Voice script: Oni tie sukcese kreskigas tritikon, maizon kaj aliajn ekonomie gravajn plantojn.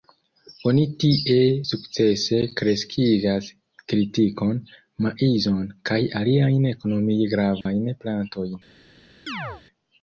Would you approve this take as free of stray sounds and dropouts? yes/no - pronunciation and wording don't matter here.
no